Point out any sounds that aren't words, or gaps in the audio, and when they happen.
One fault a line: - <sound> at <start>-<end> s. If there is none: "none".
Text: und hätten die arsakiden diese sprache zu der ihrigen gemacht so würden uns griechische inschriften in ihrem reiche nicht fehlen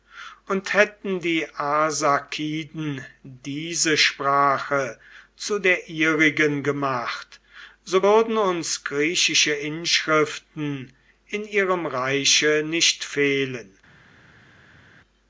none